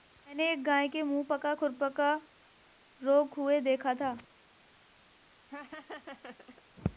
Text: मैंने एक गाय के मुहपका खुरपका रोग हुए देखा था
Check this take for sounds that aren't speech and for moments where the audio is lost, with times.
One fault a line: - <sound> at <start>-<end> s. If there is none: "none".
- laugh at 5.5-6.6 s